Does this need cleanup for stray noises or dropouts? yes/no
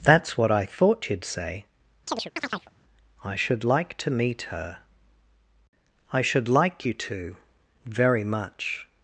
yes